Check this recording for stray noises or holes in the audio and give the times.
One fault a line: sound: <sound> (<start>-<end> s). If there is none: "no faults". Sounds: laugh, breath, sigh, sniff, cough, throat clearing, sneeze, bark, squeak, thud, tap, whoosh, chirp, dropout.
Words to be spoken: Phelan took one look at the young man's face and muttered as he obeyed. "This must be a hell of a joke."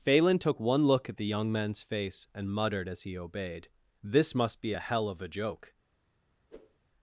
sound: whoosh (6.5-6.8 s)